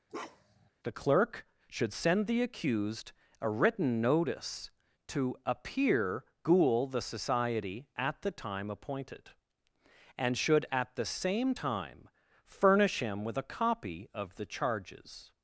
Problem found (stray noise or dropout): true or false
true